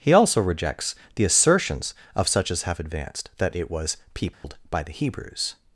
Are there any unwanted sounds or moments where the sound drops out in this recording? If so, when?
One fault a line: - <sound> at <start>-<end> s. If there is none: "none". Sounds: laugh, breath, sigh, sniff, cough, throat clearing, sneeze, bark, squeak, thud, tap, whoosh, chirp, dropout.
- dropout at 4.3-4.4 s